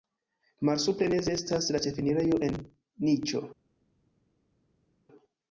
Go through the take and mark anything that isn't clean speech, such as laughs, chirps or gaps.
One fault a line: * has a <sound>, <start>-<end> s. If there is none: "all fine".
all fine